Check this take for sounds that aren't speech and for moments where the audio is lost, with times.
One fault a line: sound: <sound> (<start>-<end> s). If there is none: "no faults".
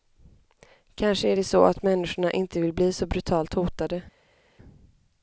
no faults